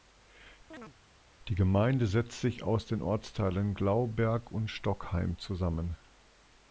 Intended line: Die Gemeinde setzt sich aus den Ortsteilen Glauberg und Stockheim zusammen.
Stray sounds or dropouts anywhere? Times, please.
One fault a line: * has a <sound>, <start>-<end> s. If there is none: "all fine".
* has a chirp, 0.7-0.9 s